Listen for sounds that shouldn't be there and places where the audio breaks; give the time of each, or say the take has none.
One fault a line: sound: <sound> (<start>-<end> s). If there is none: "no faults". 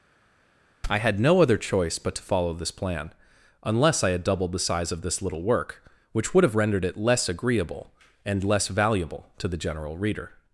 no faults